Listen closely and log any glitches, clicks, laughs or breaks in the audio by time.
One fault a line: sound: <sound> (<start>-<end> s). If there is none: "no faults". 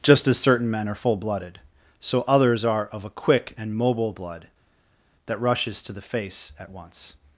no faults